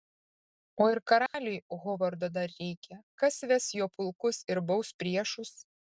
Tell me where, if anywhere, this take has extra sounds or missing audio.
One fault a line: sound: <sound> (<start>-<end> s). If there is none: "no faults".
sound: dropout (1.3-1.3 s)